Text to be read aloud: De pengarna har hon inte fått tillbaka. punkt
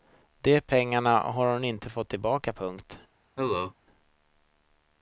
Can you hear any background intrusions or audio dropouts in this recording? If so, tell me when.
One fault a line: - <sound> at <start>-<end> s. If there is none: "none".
- cough at 3.4-3.7 s